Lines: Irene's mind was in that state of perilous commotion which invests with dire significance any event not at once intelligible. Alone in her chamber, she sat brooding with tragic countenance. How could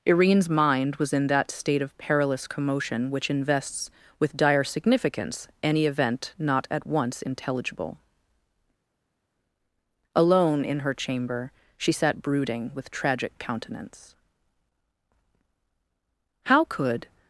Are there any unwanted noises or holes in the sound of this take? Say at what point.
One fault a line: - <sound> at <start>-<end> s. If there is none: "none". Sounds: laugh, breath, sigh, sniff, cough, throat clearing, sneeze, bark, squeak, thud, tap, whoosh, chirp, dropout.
none